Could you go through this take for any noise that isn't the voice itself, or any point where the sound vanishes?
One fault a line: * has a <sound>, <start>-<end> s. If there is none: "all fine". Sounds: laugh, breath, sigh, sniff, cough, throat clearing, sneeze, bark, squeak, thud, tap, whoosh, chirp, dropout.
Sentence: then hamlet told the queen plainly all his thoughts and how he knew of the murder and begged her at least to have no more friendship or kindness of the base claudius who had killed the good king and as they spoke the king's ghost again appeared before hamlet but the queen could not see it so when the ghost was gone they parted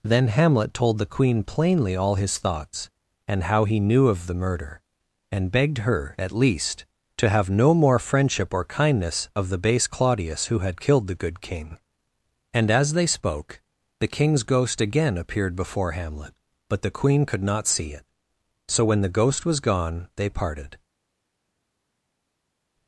all fine